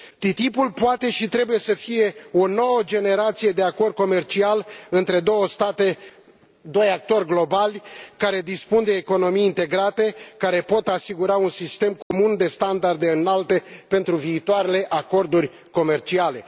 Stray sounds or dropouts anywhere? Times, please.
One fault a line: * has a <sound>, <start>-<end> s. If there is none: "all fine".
* has a dropout, 12.0-12.1 s